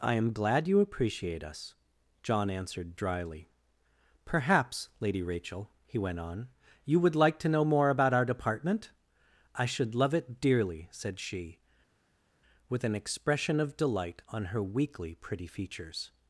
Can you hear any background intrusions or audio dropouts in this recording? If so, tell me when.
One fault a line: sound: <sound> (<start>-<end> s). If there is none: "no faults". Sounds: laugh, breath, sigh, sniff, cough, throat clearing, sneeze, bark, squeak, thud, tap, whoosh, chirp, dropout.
no faults